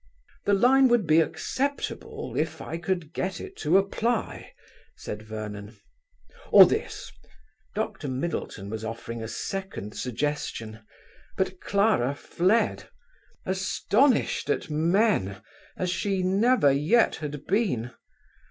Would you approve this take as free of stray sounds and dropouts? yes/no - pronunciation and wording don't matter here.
yes